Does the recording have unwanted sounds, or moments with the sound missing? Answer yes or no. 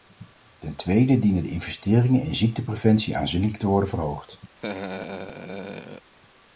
yes